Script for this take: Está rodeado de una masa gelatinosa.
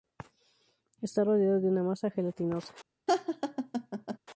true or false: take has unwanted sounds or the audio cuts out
true